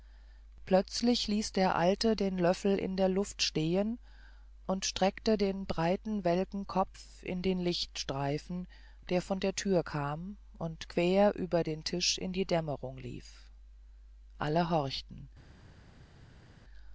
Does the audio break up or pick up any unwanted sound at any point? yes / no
no